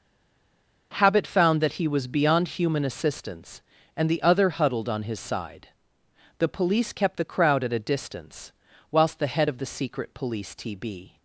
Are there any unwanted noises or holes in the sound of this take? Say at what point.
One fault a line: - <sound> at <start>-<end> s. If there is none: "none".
none